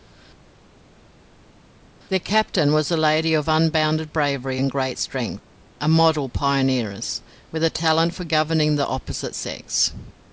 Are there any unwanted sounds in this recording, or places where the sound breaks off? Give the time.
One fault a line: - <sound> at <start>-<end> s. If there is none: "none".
none